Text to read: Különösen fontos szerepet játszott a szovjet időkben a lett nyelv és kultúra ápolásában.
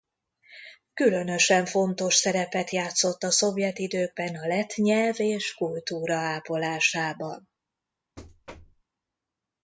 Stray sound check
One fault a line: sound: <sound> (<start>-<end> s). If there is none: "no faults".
sound: thud (8.2-8.8 s)